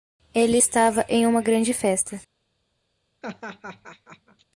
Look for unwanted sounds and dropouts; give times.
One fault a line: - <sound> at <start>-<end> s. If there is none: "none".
- laugh at 3.2-4.4 s